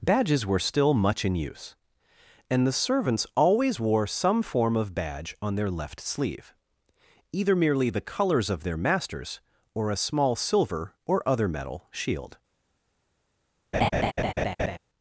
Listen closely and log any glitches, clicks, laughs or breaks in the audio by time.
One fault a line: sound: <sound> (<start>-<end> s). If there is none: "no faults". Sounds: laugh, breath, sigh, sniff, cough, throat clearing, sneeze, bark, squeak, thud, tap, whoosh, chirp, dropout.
sound: laugh (13.7-14.8 s)